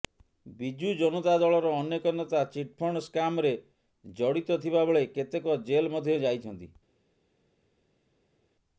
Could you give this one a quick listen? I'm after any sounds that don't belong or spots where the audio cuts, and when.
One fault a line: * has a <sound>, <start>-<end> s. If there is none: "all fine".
all fine